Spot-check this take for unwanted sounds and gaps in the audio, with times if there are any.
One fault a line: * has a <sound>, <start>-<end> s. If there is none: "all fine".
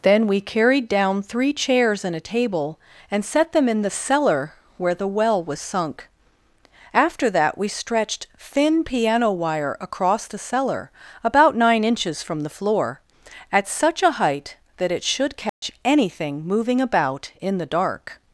* has a dropout, 15.5-15.6 s